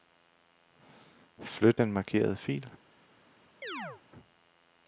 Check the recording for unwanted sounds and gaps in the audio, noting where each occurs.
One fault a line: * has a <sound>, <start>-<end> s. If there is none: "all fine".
* has a chirp, 3.6-4.0 s